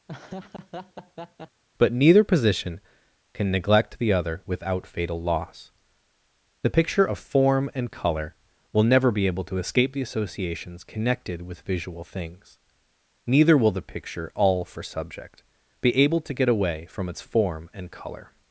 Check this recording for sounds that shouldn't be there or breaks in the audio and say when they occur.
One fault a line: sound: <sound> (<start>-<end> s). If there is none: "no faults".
sound: laugh (0.1-1.6 s)